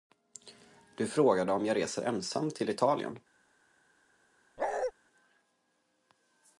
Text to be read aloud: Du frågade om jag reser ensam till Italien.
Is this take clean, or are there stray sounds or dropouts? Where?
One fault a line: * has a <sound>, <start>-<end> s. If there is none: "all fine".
* has a bark, 4.6-4.9 s